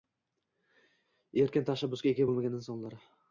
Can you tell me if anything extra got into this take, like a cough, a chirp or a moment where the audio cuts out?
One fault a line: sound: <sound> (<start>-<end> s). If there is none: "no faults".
no faults